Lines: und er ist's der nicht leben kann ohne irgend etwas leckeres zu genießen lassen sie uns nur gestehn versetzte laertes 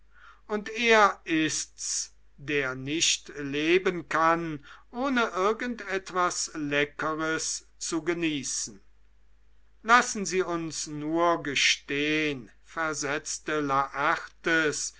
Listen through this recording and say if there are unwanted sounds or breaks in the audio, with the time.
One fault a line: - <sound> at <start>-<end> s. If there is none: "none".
none